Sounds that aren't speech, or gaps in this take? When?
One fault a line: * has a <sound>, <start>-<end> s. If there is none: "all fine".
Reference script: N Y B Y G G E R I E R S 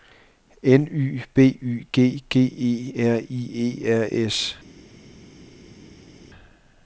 all fine